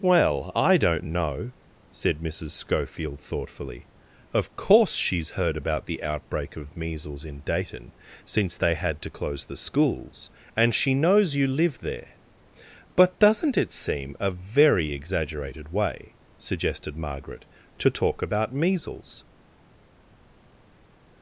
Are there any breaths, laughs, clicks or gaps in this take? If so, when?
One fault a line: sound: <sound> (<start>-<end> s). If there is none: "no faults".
no faults